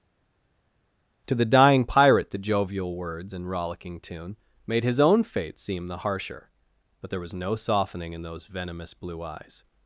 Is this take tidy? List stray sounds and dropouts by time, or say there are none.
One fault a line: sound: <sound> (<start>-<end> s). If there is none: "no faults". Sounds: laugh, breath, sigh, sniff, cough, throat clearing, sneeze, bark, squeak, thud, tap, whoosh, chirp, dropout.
no faults